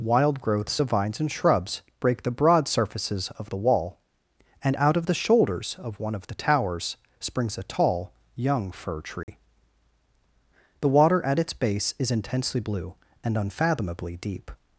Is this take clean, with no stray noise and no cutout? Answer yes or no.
no